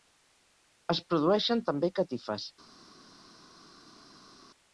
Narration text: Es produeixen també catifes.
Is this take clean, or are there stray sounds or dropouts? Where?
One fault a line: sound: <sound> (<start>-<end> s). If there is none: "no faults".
no faults